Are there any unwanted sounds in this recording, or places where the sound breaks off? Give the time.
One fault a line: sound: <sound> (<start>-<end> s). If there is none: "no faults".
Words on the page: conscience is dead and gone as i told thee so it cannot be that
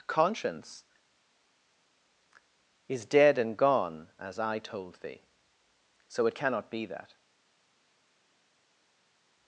no faults